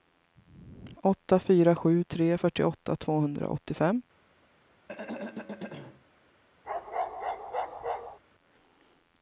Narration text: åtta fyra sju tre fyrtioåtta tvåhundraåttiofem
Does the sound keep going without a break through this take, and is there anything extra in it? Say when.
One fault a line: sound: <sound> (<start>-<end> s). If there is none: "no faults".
sound: throat clearing (4.9-6.0 s)
sound: bark (6.6-8.2 s)